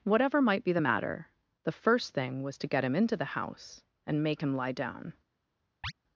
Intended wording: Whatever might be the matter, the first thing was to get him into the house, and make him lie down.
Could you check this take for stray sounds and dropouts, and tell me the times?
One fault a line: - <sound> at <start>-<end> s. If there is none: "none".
- chirp at 5.8-5.9 s